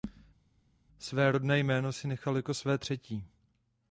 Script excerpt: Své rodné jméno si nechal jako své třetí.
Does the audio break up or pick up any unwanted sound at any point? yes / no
no